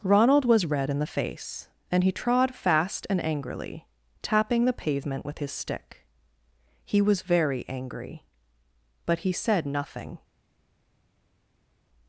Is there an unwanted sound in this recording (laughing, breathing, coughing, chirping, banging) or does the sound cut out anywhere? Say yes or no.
no